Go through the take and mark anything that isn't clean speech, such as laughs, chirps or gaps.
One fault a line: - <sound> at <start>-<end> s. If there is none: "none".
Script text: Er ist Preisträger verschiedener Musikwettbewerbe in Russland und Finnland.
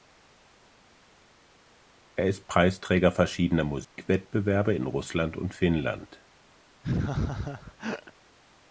- dropout at 3.8-4.0 s
- laugh at 6.8-8.1 s